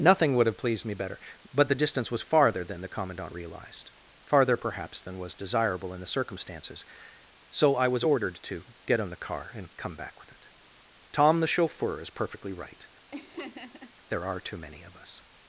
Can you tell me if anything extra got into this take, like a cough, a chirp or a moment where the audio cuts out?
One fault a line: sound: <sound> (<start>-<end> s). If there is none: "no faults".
sound: laugh (13.1-13.9 s)